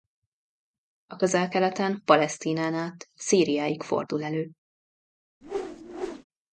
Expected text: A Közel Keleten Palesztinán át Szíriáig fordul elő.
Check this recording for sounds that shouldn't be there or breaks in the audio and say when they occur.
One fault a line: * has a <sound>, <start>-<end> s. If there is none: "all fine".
* has a whoosh, 5.4-6.2 s